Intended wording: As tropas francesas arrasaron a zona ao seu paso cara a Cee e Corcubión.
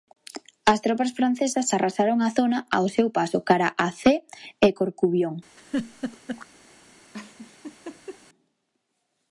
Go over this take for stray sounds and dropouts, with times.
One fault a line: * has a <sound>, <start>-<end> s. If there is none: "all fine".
* has a laugh, 5.6-6.5 s
* has a laugh, 7.1-8.2 s